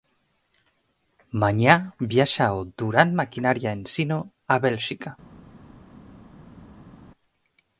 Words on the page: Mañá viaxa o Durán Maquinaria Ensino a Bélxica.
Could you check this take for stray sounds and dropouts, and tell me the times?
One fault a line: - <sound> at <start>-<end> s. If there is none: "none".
none